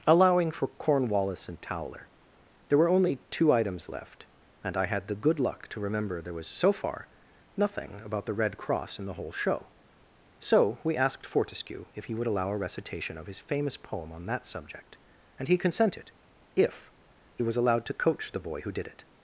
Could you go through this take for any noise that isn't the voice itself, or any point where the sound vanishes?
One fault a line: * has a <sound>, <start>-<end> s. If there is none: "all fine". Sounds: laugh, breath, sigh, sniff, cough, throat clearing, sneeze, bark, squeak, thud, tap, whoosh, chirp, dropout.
all fine